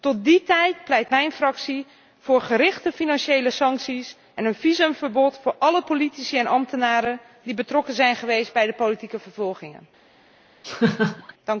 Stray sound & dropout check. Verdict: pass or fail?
fail